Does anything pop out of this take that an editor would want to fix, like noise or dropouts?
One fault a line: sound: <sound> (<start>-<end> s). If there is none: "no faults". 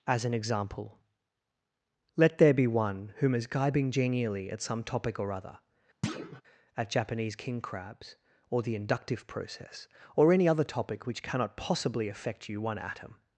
sound: thud (6.0-6.4 s)